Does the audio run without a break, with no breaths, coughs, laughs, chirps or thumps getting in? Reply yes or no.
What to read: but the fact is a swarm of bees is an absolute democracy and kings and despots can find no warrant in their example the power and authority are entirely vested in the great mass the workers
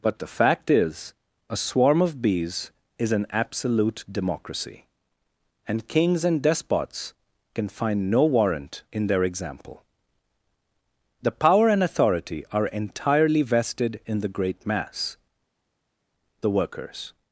yes